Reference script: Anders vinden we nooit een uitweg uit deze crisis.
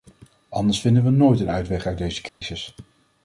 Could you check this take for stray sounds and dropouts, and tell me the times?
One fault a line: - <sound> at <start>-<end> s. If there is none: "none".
- dropout at 2.3-2.4 s